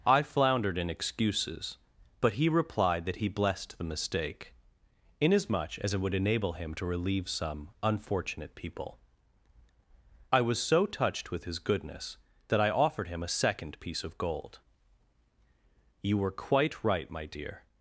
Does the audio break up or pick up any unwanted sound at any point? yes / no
no